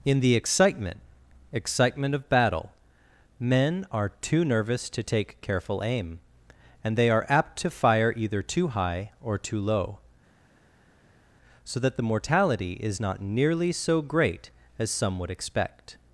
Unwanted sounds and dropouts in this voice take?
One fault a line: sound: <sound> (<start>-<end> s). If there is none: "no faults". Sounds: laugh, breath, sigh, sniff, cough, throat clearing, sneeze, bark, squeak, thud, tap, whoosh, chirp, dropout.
no faults